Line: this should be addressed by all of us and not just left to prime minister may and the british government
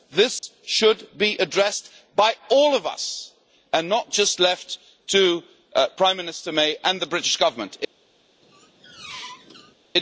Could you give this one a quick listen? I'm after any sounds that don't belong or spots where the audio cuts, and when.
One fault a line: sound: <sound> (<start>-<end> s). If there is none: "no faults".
sound: dropout (0.4-0.4 s)
sound: squeak (8.4-9.7 s)